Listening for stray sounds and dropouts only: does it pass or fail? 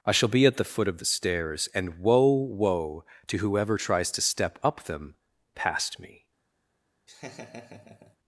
fail